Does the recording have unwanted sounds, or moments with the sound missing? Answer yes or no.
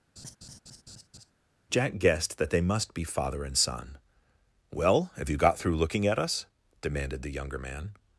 yes